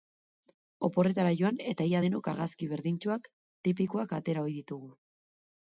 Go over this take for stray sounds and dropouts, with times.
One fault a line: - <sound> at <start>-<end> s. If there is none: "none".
none